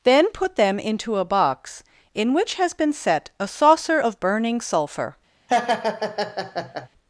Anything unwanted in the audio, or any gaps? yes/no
yes